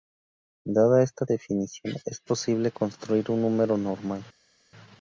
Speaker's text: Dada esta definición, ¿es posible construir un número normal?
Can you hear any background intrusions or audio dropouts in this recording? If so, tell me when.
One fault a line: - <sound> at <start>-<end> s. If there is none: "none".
none